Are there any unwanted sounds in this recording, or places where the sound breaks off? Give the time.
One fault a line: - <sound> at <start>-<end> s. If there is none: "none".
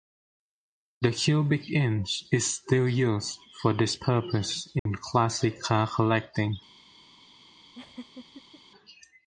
- dropout at 4.8-4.9 s
- laugh at 7.7-8.6 s